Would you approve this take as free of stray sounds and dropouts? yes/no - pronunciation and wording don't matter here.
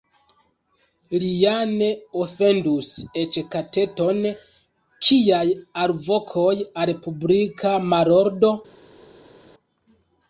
yes